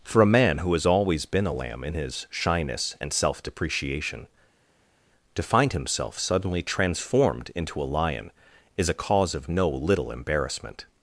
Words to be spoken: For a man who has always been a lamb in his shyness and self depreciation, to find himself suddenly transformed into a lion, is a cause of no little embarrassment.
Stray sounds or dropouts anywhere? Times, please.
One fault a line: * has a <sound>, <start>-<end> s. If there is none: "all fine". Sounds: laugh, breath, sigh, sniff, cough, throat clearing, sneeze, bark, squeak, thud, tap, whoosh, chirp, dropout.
all fine